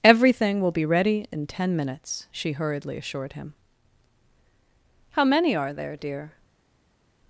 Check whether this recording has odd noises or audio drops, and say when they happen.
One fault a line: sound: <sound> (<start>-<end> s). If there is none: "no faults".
no faults